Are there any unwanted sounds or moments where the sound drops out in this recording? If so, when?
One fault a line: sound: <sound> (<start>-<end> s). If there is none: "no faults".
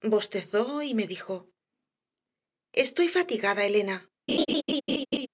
sound: laugh (4.3-5.3 s)